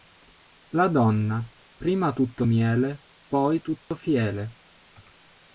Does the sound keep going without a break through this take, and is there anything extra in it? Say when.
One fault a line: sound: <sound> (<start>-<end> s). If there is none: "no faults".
sound: dropout (3.9-3.9 s)